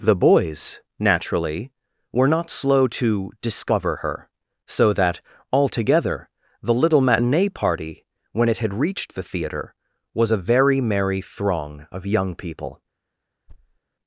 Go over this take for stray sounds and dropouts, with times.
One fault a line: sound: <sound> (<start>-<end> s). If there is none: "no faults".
sound: thud (13.5-13.8 s)